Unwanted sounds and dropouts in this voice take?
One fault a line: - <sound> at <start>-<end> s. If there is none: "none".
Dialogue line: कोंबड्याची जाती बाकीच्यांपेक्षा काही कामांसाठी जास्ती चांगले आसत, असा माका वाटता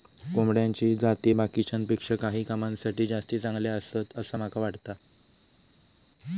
none